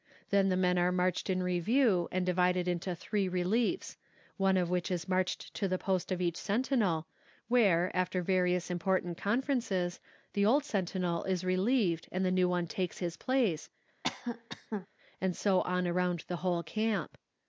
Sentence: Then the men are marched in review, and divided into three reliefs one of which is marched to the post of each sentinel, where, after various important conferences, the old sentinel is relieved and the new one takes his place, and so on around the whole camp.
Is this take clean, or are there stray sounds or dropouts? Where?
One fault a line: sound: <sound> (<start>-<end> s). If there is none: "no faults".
sound: cough (14.0-14.9 s)